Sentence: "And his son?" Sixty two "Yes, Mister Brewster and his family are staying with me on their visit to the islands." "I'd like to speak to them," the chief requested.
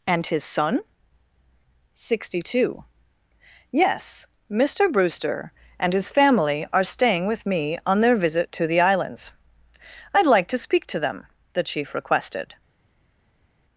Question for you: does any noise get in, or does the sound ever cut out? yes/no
no